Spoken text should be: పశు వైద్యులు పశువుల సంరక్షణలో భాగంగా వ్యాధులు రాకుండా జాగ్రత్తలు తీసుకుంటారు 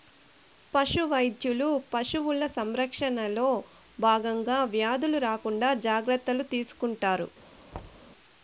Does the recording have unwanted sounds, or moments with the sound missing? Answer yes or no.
yes